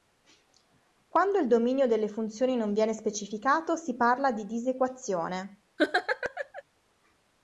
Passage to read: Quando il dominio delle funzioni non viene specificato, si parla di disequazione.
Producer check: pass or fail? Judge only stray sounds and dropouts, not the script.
fail